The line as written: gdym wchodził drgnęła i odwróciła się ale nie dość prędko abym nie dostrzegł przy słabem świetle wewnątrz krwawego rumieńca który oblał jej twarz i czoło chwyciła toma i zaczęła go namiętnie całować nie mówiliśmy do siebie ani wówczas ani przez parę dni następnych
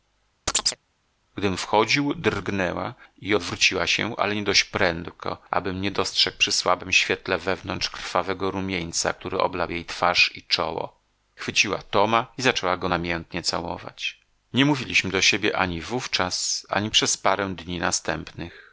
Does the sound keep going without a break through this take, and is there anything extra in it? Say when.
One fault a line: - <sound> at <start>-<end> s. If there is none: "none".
- chirp at 0.5-0.8 s